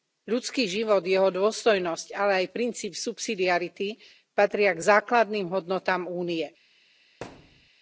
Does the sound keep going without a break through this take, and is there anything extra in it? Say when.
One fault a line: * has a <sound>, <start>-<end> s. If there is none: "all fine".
* has a thud, 7.2-7.7 s